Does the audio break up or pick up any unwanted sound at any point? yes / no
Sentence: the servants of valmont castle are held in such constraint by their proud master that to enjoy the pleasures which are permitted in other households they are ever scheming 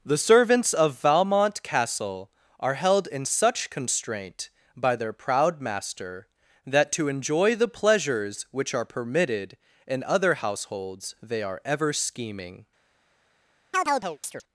yes